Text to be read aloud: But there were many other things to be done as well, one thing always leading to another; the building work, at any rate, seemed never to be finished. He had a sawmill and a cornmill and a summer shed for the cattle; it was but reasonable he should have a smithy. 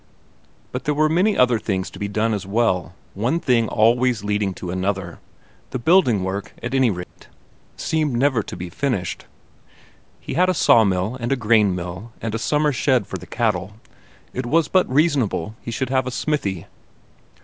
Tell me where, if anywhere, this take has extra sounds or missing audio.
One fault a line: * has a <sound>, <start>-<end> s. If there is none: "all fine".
* has a dropout, 7.0-7.2 s